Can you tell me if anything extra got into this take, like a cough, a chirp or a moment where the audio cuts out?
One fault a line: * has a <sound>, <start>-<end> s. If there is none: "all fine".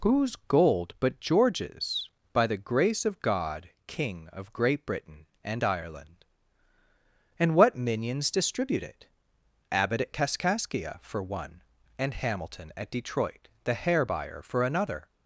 all fine